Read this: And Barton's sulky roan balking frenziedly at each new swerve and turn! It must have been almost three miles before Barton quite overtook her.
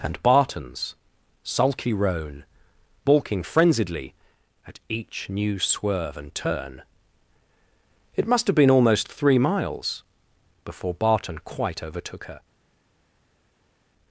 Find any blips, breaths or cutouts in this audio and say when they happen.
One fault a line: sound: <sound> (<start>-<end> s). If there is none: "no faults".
no faults